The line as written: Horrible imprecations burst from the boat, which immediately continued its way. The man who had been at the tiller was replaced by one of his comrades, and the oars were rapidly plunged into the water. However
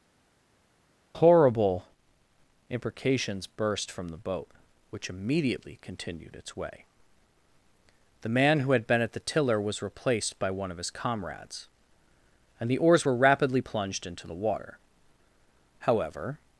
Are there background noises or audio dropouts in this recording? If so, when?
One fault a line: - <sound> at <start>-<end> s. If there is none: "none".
none